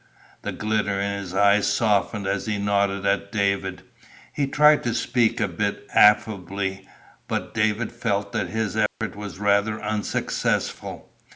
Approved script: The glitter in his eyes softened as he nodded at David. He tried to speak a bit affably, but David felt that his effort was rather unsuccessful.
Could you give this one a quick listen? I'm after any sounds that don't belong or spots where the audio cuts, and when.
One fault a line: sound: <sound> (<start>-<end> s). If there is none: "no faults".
sound: dropout (8.9-9.0 s)